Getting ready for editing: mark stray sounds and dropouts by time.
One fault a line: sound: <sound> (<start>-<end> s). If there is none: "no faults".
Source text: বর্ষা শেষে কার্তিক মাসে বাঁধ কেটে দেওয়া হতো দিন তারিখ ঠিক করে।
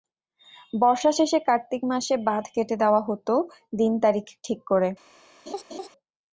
sound: laugh (5.5-5.9 s)